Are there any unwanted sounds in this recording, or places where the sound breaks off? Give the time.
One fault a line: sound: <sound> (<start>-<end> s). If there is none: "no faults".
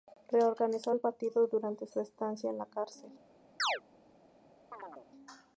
sound: chirp (3.6-3.8 s)
sound: chirp (4.7-5.1 s)